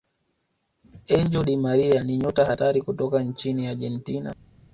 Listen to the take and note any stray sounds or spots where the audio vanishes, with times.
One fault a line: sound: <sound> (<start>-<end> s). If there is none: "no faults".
no faults